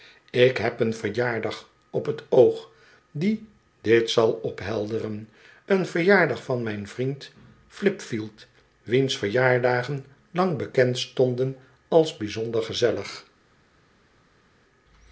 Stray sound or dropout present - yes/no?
no